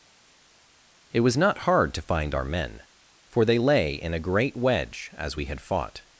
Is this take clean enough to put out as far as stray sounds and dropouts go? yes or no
yes